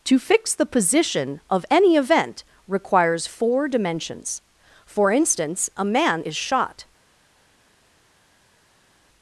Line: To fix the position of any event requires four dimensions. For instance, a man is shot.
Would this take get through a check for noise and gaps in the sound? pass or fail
pass